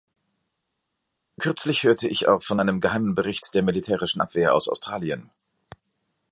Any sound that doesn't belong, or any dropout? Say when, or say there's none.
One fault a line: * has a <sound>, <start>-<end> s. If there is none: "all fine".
all fine